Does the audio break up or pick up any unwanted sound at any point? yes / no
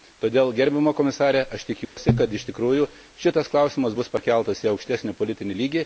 yes